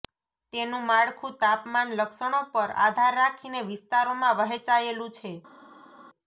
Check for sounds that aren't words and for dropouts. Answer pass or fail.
pass